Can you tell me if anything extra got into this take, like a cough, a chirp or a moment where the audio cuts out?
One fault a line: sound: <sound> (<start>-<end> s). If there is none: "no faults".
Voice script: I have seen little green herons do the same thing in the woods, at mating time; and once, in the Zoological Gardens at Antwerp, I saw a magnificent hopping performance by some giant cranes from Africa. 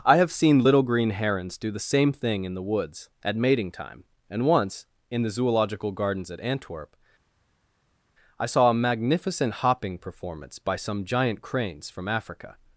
no faults